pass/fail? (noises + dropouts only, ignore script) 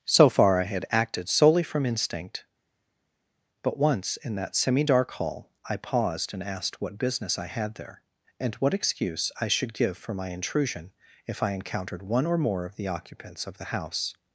pass